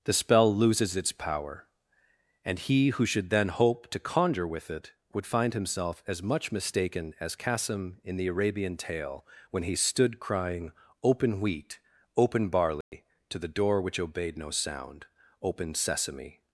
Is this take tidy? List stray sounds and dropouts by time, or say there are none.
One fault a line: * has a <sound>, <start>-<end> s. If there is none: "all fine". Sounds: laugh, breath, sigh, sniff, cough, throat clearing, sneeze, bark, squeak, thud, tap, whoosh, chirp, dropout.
* has a dropout, 12.8-12.9 s